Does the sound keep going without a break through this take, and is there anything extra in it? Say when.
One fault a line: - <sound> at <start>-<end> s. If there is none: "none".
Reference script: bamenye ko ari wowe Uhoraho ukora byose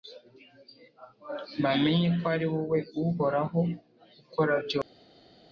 none